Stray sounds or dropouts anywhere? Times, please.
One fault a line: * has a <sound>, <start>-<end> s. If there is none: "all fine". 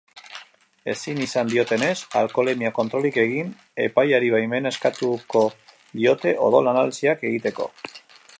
all fine